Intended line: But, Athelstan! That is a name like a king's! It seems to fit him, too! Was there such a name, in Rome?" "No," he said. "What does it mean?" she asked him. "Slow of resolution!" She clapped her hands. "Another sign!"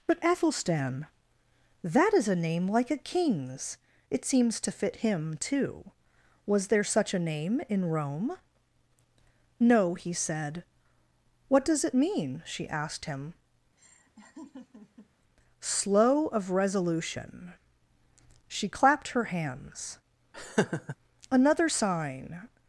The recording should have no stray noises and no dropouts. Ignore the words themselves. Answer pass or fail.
fail